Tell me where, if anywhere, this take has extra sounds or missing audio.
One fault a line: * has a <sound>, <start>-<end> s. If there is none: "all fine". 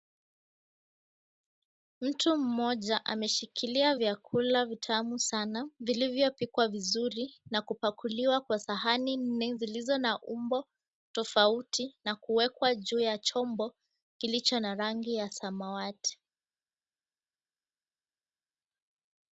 all fine